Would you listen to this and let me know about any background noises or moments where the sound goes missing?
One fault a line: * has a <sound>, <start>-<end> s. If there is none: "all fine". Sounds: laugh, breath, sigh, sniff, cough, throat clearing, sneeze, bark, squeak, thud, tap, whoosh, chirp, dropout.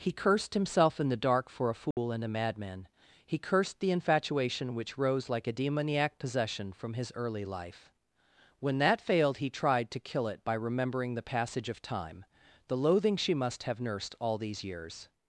* has a dropout, 1.9-2.0 s